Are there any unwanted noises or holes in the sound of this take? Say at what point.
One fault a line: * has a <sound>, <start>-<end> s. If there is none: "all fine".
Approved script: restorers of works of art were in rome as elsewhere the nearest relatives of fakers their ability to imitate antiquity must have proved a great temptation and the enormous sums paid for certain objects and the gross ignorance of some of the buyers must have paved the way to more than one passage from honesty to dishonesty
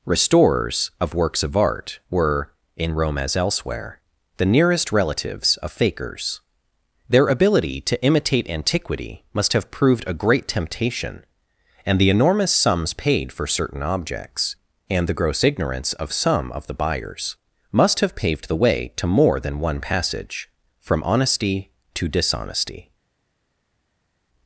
all fine